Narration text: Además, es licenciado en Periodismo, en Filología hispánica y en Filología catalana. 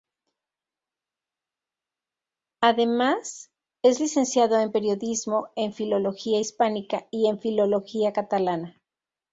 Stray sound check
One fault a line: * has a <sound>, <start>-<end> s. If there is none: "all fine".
all fine